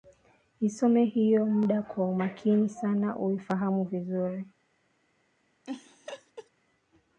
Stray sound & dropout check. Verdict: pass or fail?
fail